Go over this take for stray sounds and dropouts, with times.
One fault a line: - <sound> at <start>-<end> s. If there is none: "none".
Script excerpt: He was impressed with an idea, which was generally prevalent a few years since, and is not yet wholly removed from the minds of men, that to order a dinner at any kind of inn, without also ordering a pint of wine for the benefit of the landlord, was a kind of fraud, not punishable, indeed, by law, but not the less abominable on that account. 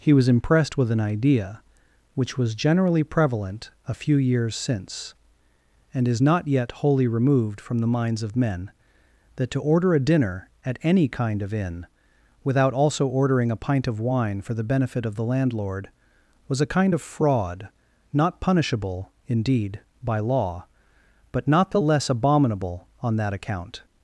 none